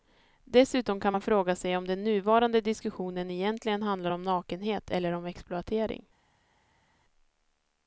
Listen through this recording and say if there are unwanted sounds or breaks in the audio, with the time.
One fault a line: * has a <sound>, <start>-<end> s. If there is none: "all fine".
all fine